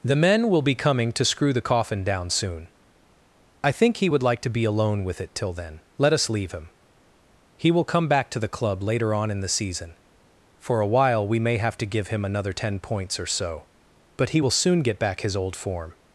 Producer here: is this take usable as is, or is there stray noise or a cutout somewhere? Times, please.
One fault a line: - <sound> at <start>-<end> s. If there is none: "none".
none